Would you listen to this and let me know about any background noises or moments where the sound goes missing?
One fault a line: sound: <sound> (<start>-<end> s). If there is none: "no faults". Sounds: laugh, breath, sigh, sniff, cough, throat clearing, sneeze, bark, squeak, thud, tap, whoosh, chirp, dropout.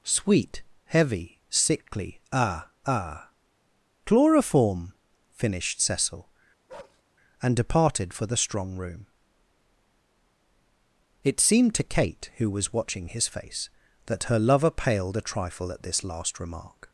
sound: bark (6.7-7.0 s)